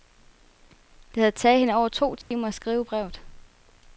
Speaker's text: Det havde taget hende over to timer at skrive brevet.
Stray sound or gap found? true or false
true